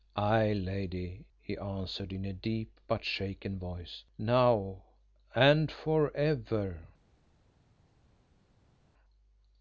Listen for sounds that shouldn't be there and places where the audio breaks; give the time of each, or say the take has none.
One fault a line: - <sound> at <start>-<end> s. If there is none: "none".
none